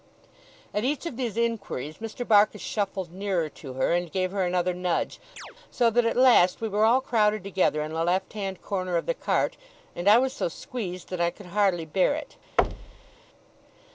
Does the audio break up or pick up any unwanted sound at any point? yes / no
yes